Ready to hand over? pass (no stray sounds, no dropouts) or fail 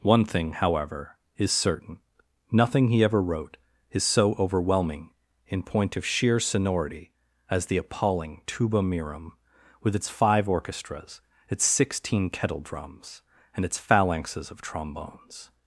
pass